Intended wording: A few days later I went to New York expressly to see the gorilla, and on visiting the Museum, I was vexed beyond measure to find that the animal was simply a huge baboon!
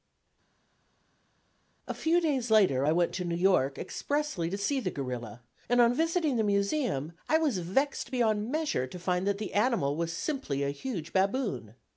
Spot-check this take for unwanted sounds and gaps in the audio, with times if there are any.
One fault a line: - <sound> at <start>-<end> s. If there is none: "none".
none